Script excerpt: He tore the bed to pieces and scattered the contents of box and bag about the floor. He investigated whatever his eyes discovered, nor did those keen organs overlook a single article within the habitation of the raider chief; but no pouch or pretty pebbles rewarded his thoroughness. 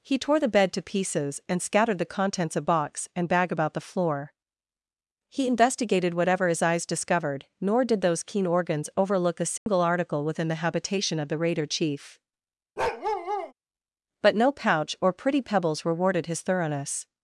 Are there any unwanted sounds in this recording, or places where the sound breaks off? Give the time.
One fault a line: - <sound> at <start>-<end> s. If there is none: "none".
- dropout at 9.6-9.7 s
- bark at 12.8-13.5 s